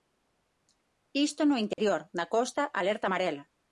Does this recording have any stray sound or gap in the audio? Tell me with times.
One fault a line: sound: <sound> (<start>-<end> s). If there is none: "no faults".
sound: dropout (1.7-1.8 s)